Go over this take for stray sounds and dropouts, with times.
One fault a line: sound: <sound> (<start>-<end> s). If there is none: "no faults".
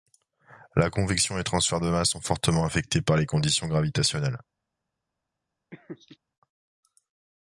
sound: laugh (5.7-6.2 s)